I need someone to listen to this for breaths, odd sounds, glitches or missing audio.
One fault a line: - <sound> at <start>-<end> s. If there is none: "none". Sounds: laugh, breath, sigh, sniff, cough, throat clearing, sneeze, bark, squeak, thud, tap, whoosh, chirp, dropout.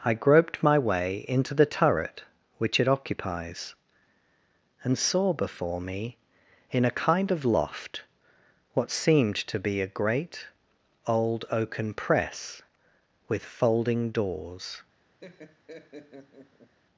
- laugh at 15.2-16.8 s